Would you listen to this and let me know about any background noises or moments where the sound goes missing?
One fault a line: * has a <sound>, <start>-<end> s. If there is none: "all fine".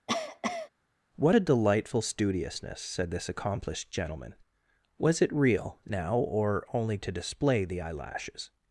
* has a cough, 0.1-0.7 s